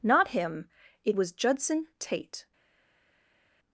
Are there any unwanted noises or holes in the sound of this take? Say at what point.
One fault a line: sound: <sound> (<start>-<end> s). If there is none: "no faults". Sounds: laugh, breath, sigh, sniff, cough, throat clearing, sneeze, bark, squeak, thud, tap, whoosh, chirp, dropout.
no faults